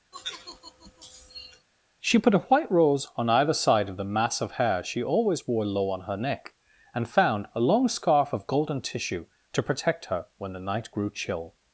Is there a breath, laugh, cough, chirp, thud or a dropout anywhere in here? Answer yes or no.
yes